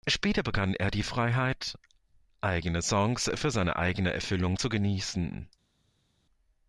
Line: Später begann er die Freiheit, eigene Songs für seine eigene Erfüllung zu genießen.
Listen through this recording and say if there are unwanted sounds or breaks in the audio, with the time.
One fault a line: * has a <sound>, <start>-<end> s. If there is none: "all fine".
all fine